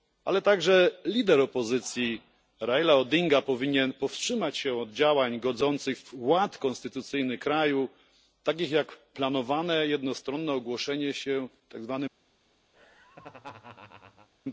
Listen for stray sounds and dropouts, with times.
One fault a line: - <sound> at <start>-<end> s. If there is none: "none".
- laugh at 12.7-14.3 s